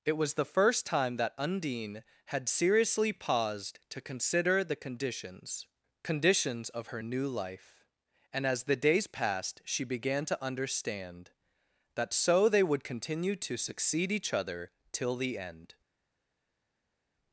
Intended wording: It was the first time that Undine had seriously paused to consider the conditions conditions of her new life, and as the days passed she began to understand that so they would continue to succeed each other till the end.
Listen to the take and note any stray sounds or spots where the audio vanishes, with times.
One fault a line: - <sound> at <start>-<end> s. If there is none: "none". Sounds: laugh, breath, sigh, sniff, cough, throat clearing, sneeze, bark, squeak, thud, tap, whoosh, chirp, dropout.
none